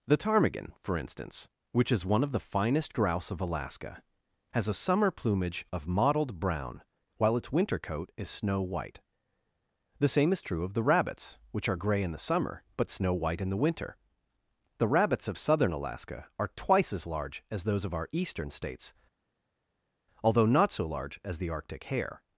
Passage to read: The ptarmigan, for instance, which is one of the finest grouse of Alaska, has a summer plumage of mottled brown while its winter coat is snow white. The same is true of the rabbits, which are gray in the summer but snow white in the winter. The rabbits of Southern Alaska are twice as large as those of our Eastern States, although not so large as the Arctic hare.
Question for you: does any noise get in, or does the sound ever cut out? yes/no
no